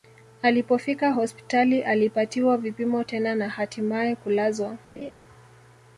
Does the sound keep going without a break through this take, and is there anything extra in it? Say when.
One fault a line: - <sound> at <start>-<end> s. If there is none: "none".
- laugh at 5.0-5.1 s